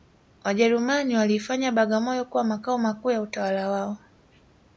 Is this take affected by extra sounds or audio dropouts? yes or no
no